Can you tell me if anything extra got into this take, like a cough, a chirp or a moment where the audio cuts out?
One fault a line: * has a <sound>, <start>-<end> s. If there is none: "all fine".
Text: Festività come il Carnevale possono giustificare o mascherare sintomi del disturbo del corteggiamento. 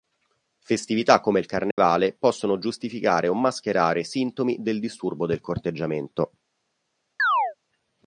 * has a dropout, 1.7-1.8 s
* has a chirp, 7.2-7.5 s